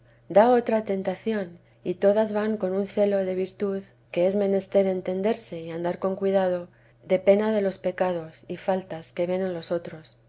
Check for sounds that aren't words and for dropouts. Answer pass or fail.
pass